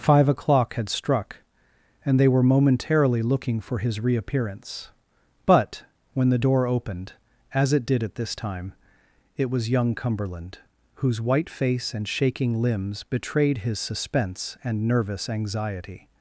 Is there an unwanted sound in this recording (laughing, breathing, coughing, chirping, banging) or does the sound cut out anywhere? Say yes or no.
no